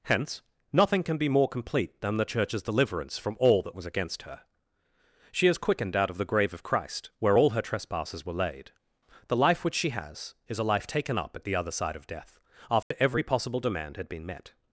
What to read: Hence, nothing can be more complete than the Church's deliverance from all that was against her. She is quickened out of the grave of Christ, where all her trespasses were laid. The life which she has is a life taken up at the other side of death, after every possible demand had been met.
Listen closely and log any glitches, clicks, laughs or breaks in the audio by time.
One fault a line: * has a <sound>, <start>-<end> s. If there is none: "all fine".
* has a dropout, 12.8-12.9 s